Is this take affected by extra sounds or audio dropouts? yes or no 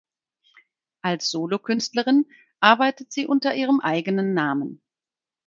no